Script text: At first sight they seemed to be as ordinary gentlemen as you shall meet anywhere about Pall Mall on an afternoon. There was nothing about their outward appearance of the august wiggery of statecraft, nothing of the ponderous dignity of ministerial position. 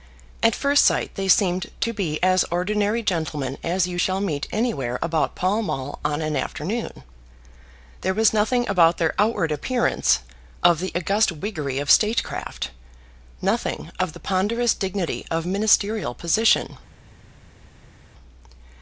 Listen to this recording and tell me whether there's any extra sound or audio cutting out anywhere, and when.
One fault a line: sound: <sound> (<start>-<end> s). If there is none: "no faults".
no faults